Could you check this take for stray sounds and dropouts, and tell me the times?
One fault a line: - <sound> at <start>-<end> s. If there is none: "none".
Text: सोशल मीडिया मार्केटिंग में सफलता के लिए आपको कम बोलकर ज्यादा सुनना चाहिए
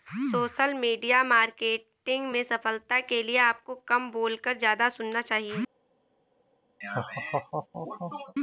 - laugh at 6.8-8.3 s